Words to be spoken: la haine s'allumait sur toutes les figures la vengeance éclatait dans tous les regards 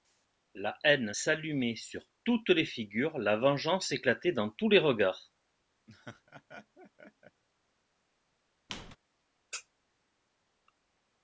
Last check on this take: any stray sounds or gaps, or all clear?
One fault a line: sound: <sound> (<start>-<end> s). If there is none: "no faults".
sound: laugh (5.9-7.4 s)
sound: squeak (8.7-9.0 s)